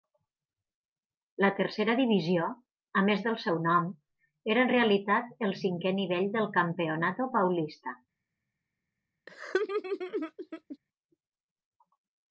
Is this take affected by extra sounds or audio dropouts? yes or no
yes